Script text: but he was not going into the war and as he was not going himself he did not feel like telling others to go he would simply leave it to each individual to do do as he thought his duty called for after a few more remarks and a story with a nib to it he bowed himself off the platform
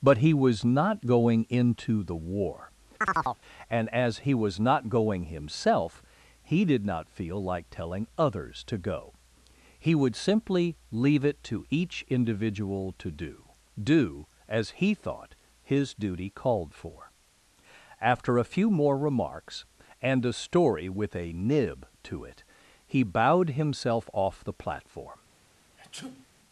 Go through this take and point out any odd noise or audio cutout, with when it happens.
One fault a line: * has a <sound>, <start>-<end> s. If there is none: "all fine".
* has a chirp, 3.0-3.4 s
* has a sneeze, 25.8-26.3 s